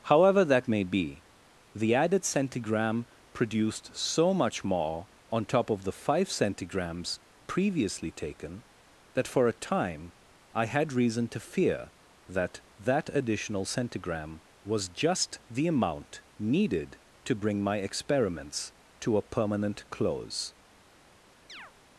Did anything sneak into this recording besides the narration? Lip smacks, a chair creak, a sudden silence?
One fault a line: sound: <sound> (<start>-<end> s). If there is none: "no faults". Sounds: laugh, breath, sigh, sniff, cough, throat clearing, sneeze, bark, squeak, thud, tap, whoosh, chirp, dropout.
sound: chirp (21.5-21.7 s)